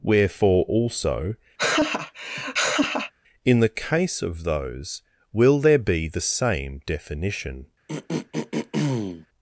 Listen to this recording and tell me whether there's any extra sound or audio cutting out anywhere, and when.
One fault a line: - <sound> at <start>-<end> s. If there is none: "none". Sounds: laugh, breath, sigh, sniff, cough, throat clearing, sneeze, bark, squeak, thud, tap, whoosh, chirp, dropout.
- laugh at 1.6-3.1 s
- throat clearing at 7.9-9.3 s